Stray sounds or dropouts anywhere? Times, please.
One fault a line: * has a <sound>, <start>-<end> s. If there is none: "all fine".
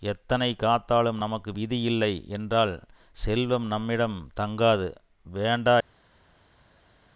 all fine